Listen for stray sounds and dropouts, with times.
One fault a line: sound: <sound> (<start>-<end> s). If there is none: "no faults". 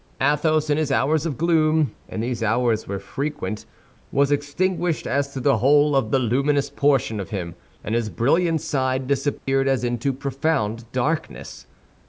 sound: dropout (9.4-9.5 s)